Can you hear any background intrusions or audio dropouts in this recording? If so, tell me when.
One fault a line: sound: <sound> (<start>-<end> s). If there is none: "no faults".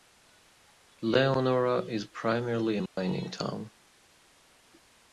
sound: dropout (2.9-3.0 s)